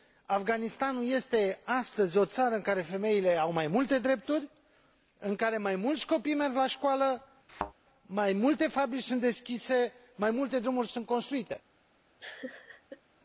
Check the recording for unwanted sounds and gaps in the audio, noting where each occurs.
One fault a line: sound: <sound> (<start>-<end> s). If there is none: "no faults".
sound: thud (7.5-7.7 s)
sound: laugh (12.2-13.0 s)